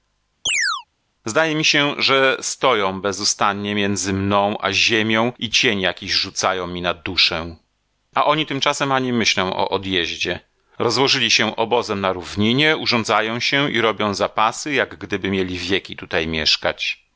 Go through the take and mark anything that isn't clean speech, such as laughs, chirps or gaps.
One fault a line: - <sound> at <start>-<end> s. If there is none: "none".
- chirp at 0.5-0.9 s